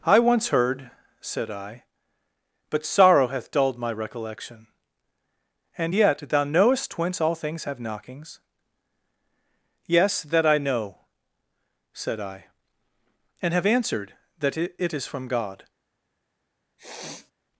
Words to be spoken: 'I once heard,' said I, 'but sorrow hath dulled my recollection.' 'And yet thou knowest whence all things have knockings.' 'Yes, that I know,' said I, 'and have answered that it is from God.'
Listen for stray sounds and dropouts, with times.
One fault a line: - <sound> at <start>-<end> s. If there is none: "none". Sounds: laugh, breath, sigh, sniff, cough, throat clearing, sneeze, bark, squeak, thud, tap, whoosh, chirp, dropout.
- sniff at 16.8-17.3 s